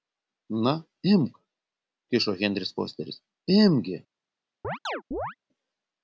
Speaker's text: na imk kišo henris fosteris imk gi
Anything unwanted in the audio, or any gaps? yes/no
yes